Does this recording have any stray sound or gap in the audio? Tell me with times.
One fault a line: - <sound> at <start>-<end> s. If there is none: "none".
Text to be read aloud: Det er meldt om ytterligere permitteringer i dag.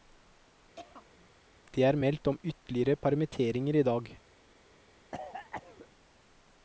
- throat clearing at 0.8-1.3 s
- cough at 5.1-5.9 s